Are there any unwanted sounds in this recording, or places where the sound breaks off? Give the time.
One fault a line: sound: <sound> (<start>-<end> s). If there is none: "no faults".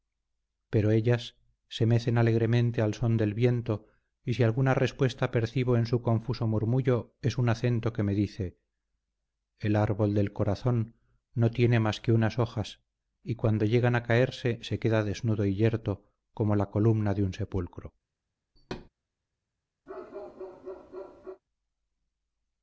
sound: thud (18.6-18.9 s)
sound: bark (19.9-21.4 s)